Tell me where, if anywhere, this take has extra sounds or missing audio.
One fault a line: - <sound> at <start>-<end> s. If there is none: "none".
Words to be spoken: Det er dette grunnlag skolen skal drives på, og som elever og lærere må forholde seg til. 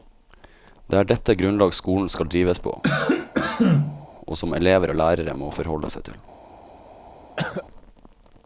- cough at 2.8-4.1 s
- cough at 7.4-7.7 s